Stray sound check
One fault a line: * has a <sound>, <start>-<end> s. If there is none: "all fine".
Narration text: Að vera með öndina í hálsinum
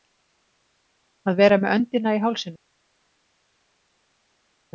all fine